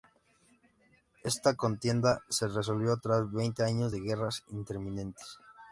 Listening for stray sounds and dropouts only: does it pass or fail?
pass